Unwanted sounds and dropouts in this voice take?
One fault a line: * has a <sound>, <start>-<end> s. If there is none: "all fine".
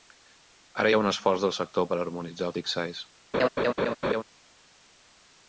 * has a laugh, 3.3-4.2 s